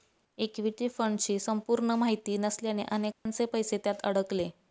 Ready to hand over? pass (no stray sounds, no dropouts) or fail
fail